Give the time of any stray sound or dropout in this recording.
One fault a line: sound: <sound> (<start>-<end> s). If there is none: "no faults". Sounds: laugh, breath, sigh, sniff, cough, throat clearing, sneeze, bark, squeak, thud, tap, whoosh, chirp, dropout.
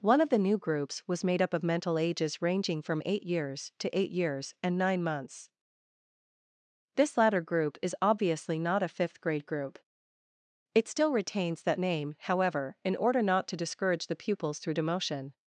no faults